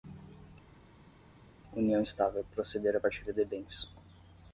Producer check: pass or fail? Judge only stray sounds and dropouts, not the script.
pass